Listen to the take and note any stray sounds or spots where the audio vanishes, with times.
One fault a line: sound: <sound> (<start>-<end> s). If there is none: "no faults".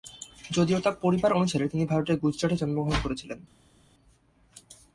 no faults